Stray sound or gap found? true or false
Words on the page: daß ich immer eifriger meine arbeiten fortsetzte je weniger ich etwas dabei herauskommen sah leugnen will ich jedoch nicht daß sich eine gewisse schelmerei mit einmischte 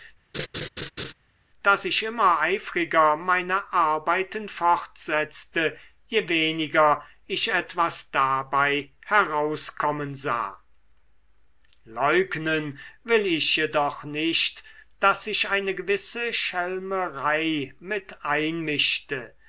true